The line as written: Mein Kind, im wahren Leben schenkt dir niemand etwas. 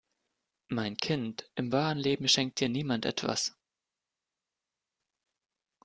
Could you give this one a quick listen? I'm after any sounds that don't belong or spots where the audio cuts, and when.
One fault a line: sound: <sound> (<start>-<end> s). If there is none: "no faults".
no faults